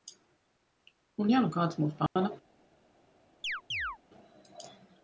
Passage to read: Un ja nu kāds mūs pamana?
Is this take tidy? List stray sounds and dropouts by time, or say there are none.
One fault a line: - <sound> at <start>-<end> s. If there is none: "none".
- dropout at 2.1-2.2 s
- chirp at 3.4-4.0 s